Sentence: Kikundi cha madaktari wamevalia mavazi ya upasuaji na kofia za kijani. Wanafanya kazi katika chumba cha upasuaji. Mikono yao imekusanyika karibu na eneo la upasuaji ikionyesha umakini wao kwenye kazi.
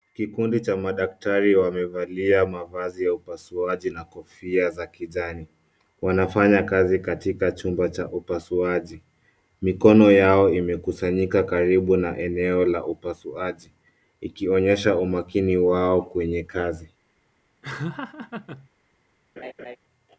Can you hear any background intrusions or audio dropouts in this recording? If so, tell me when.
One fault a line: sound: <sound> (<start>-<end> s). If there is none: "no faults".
sound: laugh (17.6-18.7 s)
sound: laugh (19.4-19.8 s)